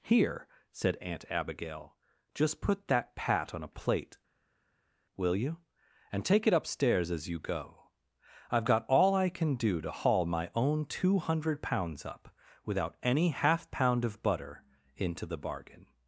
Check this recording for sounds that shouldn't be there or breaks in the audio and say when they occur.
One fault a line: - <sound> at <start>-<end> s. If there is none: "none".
none